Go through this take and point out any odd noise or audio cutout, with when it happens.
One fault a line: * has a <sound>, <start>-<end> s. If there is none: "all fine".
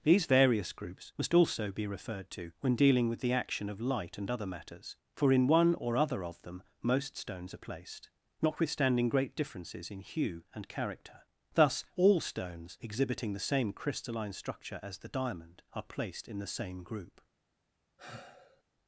* has a sigh, 18.0-18.6 s